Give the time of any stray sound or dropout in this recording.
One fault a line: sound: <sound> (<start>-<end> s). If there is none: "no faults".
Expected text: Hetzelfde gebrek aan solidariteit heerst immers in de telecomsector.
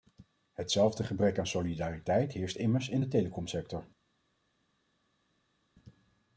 no faults